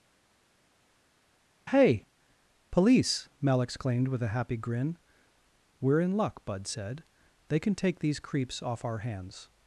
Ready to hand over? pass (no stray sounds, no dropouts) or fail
pass